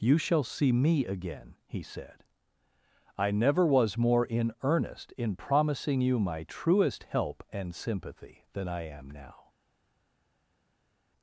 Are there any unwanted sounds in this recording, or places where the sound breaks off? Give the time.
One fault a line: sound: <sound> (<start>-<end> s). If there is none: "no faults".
no faults